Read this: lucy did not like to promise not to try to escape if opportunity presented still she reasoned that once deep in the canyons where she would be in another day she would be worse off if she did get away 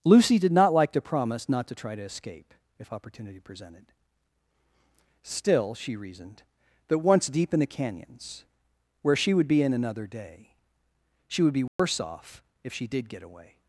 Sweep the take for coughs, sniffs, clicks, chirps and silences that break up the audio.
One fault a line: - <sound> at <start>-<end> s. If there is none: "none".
- dropout at 11.7-11.8 s